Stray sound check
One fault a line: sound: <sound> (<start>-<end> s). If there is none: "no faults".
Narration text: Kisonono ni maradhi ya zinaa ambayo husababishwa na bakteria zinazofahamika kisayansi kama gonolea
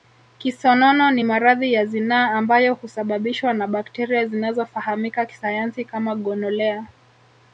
no faults